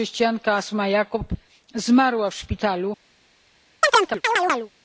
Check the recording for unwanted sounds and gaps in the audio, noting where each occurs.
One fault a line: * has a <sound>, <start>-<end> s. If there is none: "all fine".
* has a chirp, 3.8-4.7 s